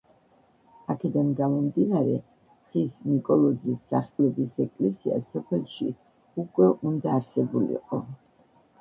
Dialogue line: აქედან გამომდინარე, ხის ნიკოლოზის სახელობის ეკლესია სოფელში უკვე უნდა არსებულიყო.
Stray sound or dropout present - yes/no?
yes